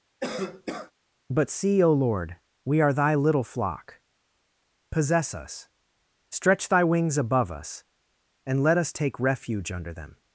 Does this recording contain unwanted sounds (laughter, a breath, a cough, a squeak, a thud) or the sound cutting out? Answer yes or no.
yes